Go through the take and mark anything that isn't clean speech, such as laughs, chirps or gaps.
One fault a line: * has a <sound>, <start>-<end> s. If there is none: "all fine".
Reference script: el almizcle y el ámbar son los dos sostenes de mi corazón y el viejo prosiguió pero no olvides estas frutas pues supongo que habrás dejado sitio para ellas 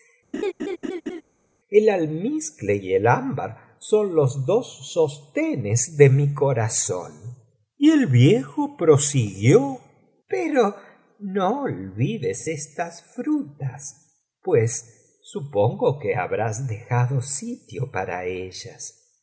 * has a laugh, 0.3-1.2 s